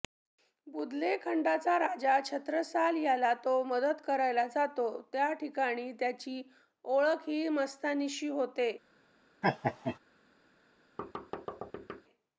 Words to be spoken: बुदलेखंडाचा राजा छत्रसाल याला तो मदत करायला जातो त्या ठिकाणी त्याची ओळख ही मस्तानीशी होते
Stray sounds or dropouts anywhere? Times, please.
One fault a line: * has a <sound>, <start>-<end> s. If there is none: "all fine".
* has a laugh, 9.4-10.0 s
* has a thud, 11.0-12.0 s